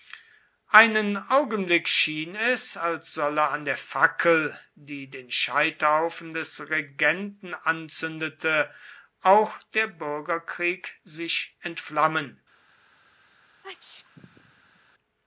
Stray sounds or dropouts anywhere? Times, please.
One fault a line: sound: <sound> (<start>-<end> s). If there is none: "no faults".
sound: sneeze (13.6-14.8 s)